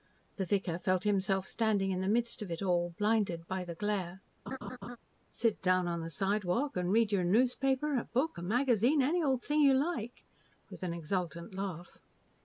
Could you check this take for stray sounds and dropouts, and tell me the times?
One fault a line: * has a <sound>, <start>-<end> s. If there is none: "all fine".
* has a laugh, 4.5-5.0 s